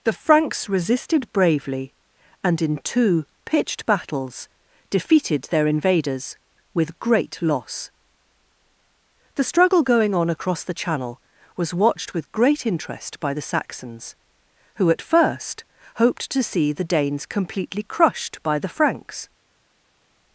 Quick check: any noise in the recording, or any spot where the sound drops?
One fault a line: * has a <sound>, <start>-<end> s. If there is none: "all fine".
all fine